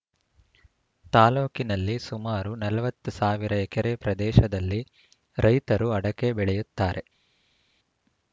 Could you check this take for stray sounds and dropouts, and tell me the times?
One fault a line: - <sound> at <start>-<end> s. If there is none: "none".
none